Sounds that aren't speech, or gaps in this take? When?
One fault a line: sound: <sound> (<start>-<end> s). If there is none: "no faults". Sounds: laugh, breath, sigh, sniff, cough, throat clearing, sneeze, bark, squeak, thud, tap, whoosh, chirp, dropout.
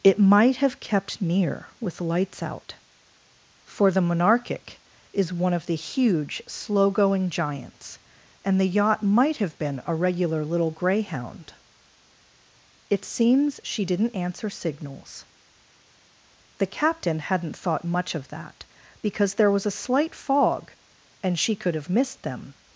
no faults